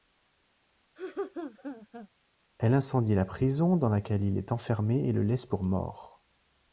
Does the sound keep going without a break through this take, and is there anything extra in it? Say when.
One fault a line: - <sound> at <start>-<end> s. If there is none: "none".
- laugh at 1.0-2.1 s